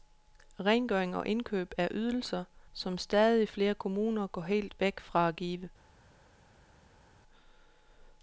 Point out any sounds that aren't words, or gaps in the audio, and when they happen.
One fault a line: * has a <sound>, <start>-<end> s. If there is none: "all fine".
all fine